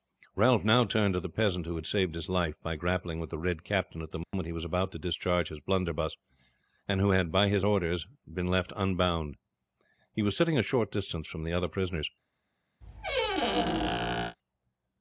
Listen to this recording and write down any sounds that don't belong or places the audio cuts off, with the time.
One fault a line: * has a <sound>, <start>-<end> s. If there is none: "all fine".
* has a dropout, 4.2-4.3 s
* has a squeak, 12.8-14.4 s